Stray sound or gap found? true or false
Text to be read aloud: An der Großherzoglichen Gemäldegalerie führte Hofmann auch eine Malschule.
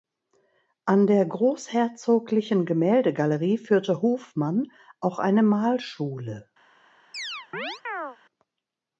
true